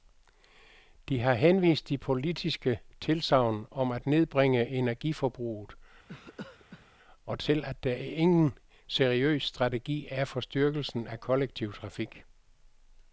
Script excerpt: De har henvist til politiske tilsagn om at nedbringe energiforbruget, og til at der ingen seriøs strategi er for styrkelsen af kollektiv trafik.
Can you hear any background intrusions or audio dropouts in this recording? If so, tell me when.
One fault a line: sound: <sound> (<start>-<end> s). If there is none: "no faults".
sound: cough (6.1-6.9 s)